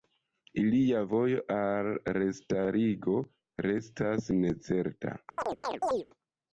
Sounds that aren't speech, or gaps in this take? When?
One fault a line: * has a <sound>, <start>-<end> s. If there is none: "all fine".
* has a chirp, 5.4-6.1 s